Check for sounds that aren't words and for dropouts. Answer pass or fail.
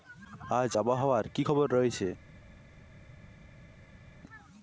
pass